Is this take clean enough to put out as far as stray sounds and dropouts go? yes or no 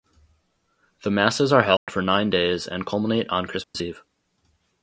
no